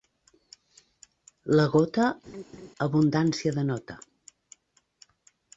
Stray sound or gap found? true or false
true